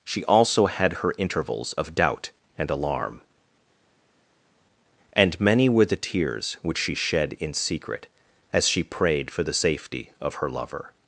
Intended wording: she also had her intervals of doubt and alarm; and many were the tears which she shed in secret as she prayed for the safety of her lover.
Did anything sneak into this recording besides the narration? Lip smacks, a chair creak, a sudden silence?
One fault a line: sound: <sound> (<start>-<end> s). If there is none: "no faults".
no faults